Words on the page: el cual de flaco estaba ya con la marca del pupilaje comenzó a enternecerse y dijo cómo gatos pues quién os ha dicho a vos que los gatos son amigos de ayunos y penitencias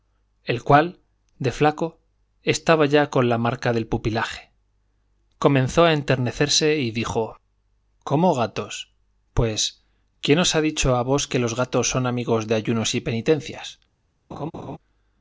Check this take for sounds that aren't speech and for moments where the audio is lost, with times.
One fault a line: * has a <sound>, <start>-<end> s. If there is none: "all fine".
* has a laugh, 14.3-14.8 s